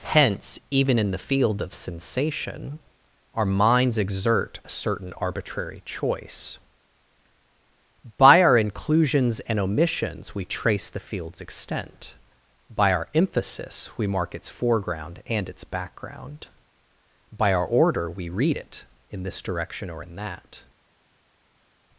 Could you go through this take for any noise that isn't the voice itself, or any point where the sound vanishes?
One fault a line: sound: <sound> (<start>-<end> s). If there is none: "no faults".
no faults